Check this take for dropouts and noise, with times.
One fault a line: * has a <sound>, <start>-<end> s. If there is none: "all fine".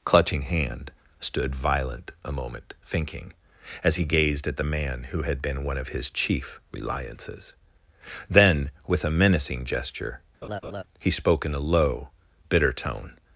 * has a laugh, 10.4-10.8 s